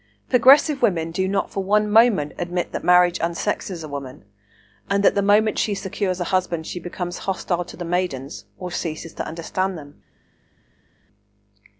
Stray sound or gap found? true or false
false